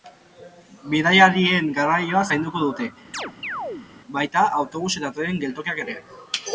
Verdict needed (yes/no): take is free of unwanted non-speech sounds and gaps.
no